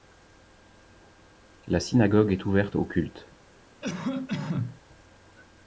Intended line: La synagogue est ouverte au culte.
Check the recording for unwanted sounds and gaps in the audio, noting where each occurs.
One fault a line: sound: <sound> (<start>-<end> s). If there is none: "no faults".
sound: cough (3.8-4.8 s)